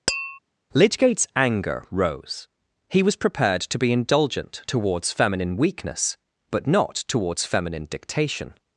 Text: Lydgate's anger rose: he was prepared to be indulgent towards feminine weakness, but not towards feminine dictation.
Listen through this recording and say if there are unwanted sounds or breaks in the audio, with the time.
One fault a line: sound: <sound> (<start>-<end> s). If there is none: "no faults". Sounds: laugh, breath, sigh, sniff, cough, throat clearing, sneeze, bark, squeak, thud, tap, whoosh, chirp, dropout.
sound: tap (0.1-0.4 s)